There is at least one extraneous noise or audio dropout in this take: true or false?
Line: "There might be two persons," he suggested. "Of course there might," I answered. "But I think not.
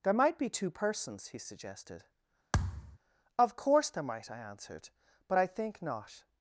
true